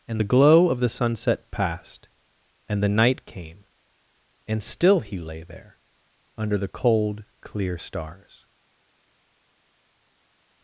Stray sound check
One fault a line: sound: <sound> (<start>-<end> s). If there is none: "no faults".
no faults